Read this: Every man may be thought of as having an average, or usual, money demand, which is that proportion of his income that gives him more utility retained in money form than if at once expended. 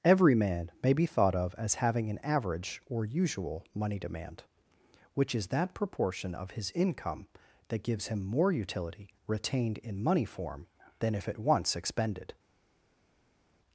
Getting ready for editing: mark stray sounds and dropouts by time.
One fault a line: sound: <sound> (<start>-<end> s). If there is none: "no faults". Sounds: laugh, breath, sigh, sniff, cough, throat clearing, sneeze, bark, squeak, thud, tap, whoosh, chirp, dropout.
no faults